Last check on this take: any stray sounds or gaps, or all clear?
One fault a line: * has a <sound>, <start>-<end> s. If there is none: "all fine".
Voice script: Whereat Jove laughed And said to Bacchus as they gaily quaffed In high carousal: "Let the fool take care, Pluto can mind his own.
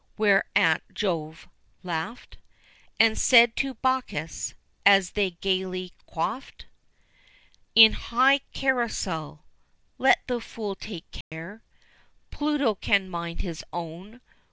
* has a dropout, 11.2-11.3 s